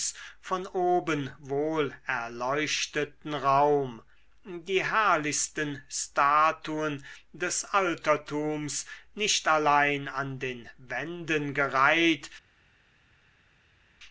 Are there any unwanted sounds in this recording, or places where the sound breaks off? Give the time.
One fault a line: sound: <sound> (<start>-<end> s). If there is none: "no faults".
no faults